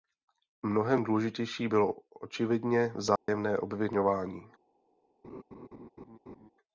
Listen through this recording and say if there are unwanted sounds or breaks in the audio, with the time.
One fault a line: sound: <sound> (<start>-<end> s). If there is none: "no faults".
sound: dropout (3.2-3.3 s)
sound: laugh (5.2-6.5 s)